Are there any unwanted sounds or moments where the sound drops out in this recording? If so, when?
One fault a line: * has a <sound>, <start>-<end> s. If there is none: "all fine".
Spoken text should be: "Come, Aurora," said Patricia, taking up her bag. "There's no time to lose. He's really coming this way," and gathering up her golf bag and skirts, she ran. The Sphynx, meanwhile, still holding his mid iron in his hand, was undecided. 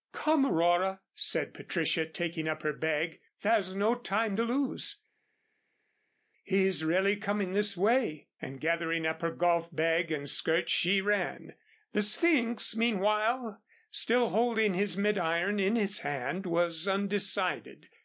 all fine